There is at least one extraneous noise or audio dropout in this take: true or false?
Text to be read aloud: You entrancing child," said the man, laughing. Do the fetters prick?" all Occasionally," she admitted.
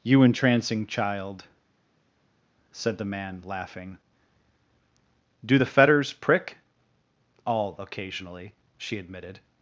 false